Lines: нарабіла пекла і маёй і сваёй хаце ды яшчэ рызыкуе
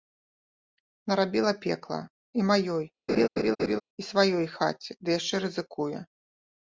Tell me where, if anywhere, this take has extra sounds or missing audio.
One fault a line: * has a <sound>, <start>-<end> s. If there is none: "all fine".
* has a laugh, 3.1-3.8 s